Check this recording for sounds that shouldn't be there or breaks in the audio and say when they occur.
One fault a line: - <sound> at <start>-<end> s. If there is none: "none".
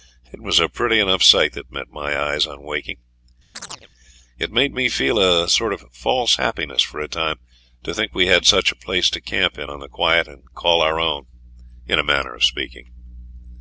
- chirp at 3.5-3.9 s